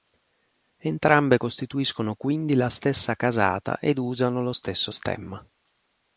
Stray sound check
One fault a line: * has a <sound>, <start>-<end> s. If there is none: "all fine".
all fine